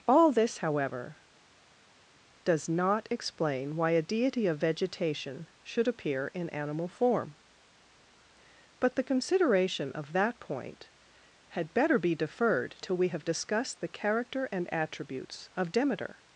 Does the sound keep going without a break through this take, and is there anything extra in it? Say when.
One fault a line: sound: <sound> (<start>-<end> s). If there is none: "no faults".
no faults